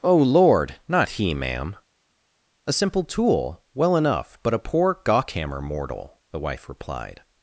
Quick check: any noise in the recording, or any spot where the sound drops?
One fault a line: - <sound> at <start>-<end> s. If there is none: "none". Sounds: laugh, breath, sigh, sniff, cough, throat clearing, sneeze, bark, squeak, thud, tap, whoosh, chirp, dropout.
none